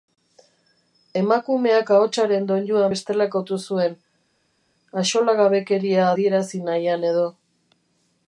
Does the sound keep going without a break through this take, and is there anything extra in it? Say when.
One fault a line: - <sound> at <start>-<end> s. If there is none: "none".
none